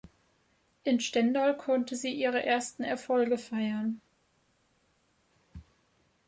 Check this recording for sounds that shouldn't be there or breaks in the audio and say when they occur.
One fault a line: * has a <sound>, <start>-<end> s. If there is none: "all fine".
all fine